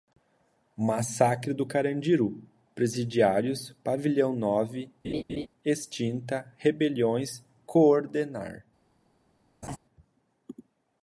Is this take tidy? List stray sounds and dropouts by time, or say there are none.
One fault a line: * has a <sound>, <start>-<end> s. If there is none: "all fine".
* has a laugh, 5.0-5.5 s
* has a laugh, 9.6-9.8 s